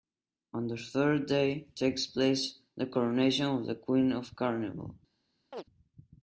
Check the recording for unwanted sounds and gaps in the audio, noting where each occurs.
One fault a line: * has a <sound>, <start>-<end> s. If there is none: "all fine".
* has a chirp, 5.5-5.6 s